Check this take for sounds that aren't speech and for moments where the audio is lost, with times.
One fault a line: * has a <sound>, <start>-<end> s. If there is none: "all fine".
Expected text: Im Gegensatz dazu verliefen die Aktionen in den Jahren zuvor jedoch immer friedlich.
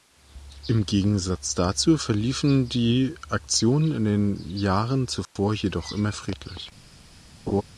* has a dropout, 5.2-5.4 s
* has a laugh, 7.5-7.6 s